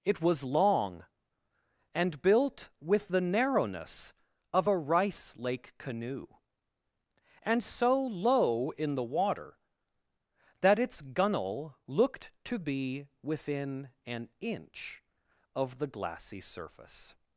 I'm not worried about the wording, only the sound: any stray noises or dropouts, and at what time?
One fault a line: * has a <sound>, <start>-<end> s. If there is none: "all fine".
all fine